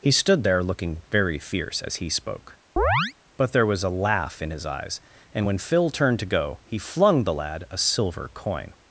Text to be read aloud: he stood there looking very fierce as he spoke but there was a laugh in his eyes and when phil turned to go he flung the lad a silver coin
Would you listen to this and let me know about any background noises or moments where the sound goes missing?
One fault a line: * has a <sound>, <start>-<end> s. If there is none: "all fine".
* has a chirp, 2.8-3.1 s